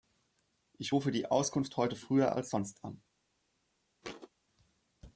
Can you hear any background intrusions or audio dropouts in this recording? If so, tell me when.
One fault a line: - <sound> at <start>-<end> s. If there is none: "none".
- thud at 4.0-4.3 s